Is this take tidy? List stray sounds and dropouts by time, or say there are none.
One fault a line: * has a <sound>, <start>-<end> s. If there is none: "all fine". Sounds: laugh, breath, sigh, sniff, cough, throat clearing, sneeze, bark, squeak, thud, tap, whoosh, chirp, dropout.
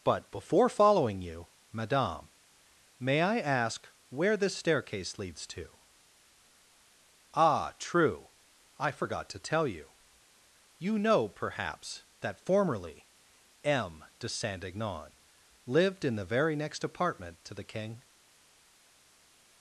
all fine